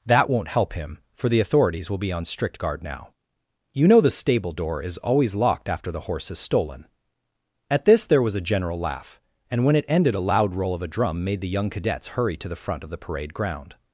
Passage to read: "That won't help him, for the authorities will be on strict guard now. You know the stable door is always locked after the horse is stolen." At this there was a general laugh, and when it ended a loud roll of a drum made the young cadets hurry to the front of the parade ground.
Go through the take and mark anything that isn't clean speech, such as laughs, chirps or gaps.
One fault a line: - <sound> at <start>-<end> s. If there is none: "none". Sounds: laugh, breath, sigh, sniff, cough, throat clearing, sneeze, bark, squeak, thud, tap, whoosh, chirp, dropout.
none